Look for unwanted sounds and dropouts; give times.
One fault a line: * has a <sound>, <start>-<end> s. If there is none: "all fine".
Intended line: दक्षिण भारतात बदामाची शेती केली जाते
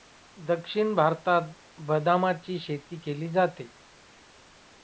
all fine